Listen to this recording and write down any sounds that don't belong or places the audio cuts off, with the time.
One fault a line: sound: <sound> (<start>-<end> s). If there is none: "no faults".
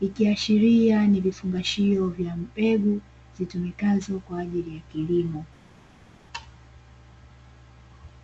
no faults